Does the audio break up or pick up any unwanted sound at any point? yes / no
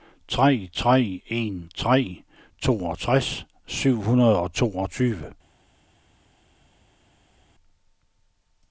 no